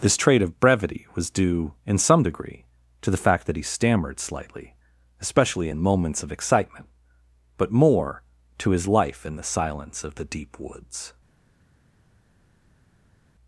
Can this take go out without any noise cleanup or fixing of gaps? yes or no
yes